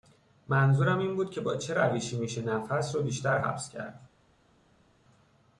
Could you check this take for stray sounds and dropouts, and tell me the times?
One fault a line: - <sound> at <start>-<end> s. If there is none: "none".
none